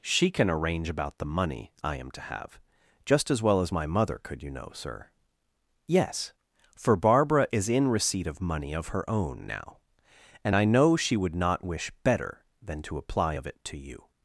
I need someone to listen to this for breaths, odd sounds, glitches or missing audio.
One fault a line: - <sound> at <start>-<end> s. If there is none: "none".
none